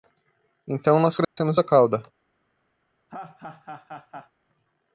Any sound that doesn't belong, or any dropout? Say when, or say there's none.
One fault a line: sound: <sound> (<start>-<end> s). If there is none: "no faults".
sound: dropout (1.2-1.4 s)
sound: laugh (3.1-4.3 s)